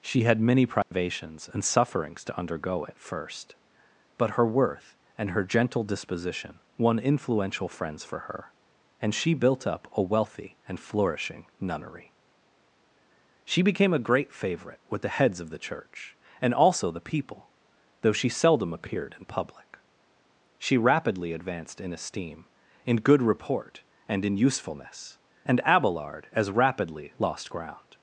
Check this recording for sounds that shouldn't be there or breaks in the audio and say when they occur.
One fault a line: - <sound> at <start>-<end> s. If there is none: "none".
- dropout at 0.8-0.9 s